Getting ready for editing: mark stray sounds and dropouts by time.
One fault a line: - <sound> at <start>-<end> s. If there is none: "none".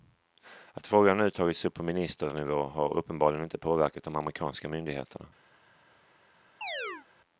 - chirp at 6.6-7.1 s